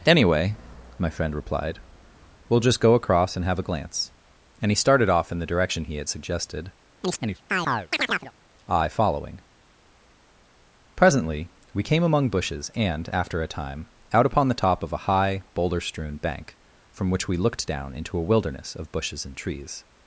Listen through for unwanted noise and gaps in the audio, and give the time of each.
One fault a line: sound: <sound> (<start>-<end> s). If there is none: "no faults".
sound: chirp (7.0-8.3 s)